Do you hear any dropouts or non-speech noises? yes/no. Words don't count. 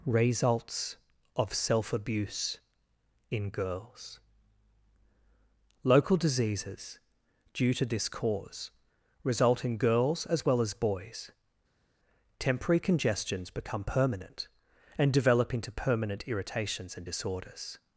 no